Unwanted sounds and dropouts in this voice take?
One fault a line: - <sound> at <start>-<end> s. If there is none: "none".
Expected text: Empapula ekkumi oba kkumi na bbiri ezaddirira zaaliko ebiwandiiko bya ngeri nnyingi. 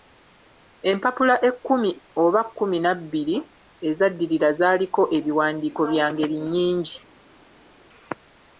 none